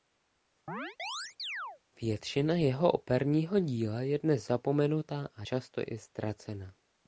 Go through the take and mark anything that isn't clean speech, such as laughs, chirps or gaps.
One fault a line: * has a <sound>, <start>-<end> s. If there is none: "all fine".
* has a chirp, 0.7-1.8 s